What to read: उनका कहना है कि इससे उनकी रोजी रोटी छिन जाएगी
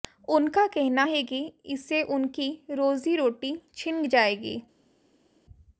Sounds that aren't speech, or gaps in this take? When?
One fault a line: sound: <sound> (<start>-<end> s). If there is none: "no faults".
no faults